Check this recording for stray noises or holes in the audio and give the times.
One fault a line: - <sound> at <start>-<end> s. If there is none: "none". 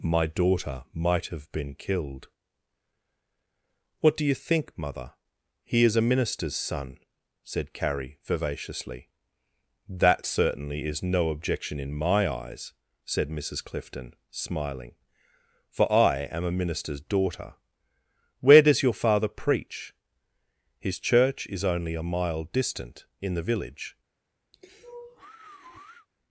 - sigh at 24.5-26.1 s